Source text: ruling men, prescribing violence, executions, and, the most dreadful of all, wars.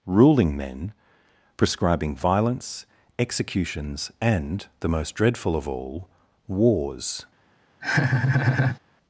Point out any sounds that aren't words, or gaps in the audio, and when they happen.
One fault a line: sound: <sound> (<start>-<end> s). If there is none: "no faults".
sound: laugh (7.8-8.8 s)